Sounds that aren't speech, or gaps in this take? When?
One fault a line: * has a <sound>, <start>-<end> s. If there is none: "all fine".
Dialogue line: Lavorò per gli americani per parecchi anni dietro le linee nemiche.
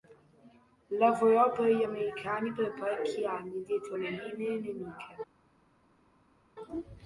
all fine